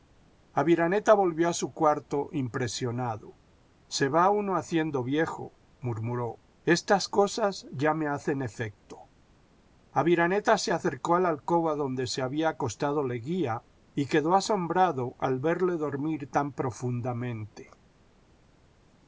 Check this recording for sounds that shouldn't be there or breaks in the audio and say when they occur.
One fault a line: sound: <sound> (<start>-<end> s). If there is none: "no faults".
no faults